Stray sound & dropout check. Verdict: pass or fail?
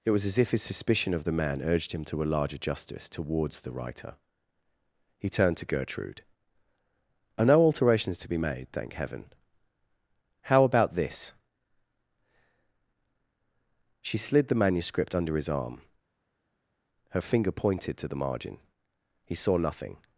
pass